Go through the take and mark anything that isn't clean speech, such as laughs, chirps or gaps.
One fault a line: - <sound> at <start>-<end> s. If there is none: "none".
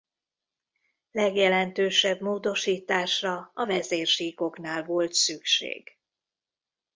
none